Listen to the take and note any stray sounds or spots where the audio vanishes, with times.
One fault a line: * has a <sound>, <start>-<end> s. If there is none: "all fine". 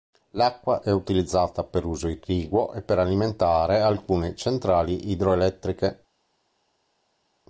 all fine